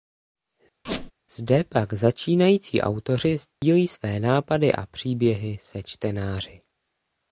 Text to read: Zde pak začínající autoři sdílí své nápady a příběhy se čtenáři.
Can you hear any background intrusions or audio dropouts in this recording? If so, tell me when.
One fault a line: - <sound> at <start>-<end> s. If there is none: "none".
- squeak at 0.8-1.1 s
- dropout at 3.5-3.6 s